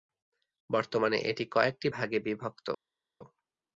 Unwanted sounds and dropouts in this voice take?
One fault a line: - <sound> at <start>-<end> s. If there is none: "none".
none